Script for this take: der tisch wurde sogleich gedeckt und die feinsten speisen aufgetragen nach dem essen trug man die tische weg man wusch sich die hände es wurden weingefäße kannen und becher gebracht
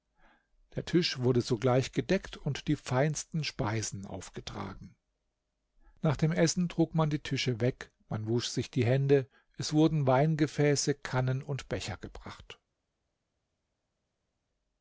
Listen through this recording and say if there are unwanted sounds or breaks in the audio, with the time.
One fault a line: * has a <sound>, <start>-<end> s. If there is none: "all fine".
all fine